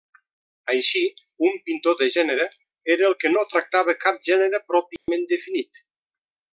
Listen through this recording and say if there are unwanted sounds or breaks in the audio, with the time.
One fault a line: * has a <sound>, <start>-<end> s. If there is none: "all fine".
* has a dropout, 5.0-5.1 s